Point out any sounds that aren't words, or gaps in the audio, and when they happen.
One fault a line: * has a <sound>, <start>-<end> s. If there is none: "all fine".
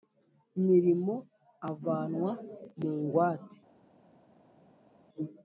all fine